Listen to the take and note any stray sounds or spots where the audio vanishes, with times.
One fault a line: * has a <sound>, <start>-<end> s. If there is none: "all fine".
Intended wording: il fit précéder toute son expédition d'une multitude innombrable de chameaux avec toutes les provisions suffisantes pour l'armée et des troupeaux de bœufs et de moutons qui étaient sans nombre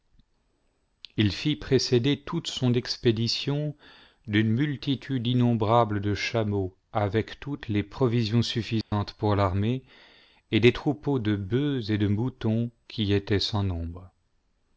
* has a dropout, 8.8-8.9 s